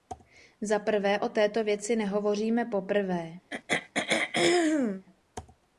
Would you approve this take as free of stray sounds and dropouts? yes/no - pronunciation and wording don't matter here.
no